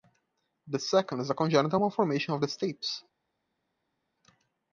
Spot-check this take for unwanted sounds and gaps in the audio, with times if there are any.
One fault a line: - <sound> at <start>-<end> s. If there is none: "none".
none